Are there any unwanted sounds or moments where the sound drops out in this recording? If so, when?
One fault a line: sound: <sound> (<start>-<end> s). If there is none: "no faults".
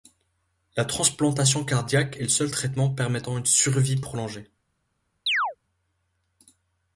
sound: chirp (5.3-5.6 s)